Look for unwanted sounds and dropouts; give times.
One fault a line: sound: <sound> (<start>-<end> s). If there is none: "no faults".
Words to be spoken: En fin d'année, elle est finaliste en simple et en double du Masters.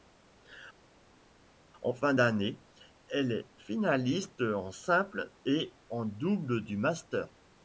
no faults